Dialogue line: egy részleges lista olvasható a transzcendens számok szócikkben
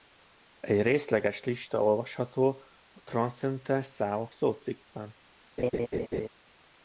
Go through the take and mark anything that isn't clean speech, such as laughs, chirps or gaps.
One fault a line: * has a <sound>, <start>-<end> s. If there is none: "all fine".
* has a laugh, 5.6-6.3 s